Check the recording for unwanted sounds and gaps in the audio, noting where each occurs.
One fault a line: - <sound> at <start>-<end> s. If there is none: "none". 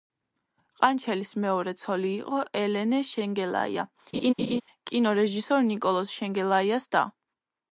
- laugh at 4.1-4.6 s